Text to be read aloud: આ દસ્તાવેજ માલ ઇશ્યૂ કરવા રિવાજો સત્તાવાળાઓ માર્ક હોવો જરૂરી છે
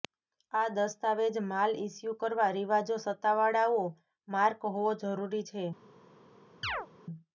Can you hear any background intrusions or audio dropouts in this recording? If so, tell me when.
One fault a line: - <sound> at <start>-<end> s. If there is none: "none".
- chirp at 6.6-6.9 s